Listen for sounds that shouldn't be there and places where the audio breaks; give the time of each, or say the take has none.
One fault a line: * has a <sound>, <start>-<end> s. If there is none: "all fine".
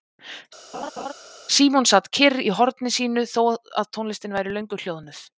* has a laugh, 0.7-1.1 s